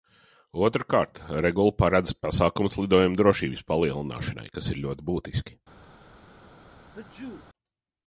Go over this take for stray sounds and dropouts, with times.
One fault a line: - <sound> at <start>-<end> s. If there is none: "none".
- sneeze at 6.9-7.5 s